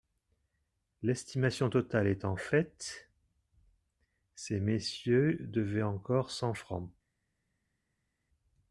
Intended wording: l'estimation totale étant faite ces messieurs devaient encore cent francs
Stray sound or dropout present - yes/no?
no